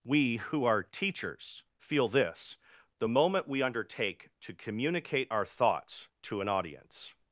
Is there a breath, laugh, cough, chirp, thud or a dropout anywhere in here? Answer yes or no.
no